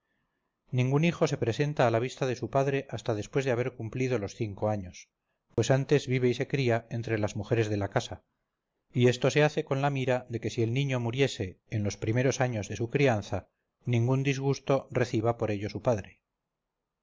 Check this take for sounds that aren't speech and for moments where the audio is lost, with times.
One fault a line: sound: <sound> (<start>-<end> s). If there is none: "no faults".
sound: dropout (5.5-5.6 s)